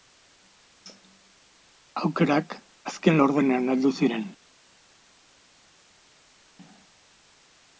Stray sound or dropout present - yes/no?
no